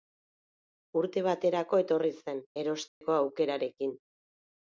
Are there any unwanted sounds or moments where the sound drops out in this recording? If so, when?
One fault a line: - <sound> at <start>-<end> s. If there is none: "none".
- dropout at 2.9-3.0 s